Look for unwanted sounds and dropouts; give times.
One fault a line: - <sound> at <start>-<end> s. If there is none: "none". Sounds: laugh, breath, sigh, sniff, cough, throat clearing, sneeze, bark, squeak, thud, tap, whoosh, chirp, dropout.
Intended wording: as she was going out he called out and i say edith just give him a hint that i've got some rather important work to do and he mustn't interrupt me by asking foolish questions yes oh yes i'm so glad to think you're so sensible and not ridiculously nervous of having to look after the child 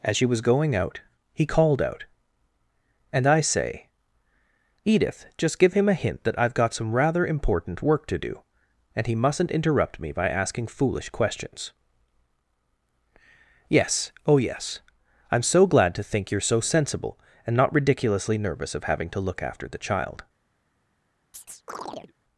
- chirp at 21.3-22.1 s